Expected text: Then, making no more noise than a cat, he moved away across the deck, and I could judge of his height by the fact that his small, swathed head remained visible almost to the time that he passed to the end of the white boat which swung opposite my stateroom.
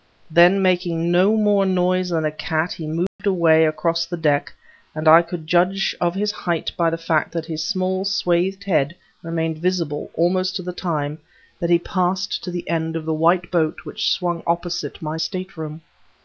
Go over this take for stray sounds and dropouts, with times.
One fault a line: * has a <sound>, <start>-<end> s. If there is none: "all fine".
* has a dropout, 3.1-3.2 s